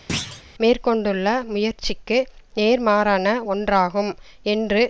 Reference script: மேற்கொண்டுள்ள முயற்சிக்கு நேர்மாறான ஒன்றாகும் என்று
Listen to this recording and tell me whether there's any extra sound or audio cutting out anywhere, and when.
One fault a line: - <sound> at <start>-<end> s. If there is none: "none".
- thud at 0.1-0.4 s